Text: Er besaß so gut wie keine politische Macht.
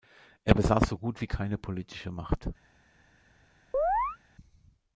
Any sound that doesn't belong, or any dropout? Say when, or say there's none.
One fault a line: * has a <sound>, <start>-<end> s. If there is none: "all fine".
* has a chirp, 3.7-4.2 s